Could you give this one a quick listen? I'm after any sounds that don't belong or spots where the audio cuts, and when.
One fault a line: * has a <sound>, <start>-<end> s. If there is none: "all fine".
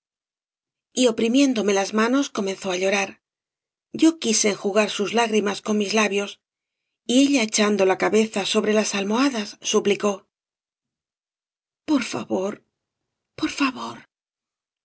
all fine